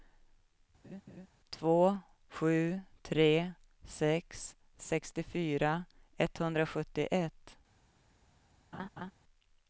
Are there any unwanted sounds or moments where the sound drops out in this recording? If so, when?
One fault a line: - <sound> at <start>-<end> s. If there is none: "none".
- laugh at 0.8-1.3 s
- laugh at 8.7-9.1 s